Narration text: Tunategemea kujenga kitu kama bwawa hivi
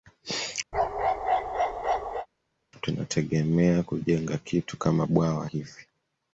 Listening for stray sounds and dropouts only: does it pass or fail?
fail